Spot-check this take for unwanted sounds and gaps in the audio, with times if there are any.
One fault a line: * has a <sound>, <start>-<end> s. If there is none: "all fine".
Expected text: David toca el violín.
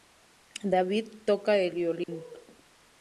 * has a dropout, 2.0-2.1 s